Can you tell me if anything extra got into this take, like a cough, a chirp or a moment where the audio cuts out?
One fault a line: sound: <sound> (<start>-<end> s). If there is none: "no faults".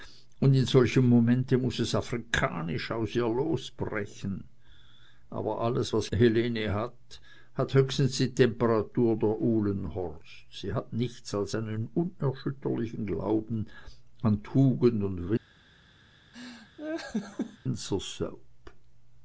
sound: laugh (16.3-17.6 s)